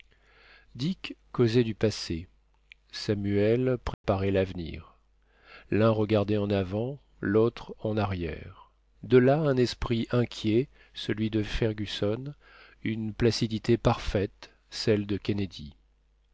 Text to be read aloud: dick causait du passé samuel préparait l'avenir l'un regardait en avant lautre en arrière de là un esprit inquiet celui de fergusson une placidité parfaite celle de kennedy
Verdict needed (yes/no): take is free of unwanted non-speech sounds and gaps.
no